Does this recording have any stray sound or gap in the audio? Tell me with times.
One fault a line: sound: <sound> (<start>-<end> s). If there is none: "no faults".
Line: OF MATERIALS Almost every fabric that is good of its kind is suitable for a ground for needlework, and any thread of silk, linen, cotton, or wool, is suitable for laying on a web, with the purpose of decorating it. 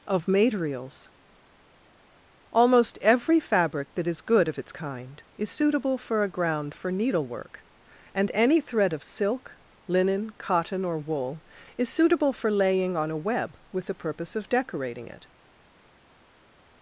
no faults